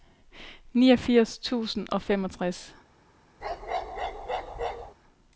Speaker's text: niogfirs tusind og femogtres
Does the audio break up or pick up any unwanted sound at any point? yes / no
yes